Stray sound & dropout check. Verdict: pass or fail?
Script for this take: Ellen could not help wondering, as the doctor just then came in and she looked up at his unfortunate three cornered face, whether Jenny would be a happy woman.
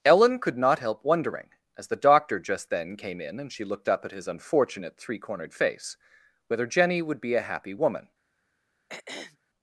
fail